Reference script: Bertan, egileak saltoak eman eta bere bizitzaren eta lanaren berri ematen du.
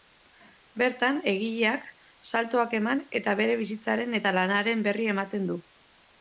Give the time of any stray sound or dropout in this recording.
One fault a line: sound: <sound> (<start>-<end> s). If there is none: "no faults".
no faults